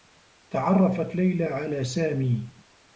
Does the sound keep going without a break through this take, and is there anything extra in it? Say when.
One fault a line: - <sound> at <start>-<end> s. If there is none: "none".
none